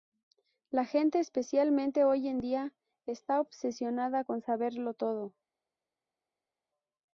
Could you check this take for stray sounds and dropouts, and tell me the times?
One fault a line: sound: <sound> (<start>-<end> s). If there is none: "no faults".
no faults